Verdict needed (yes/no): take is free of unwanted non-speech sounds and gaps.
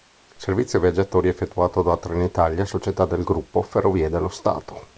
yes